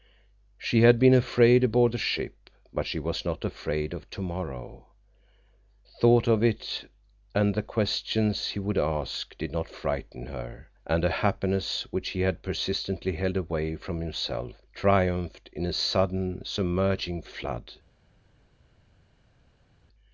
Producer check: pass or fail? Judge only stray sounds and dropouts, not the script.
pass